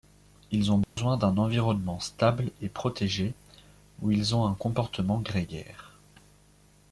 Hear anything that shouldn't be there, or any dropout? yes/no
yes